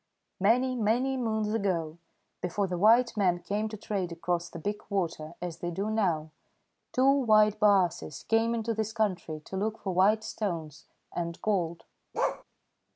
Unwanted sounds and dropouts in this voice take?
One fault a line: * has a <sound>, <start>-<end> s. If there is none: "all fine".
* has a bark, 12.1-12.4 s